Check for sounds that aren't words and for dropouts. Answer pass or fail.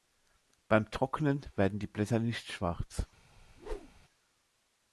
fail